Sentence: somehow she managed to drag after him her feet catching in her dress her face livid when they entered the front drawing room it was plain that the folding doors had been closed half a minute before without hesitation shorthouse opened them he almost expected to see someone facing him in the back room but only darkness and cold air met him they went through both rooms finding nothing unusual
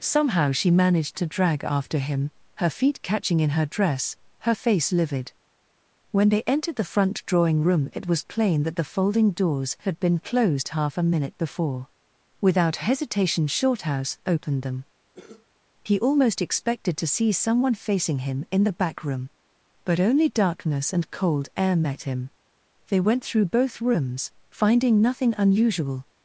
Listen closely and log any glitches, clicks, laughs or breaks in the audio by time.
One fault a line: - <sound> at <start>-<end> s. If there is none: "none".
- cough at 15.1-15.5 s